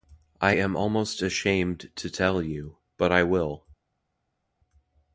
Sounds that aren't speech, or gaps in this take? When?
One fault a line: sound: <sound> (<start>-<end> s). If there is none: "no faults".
no faults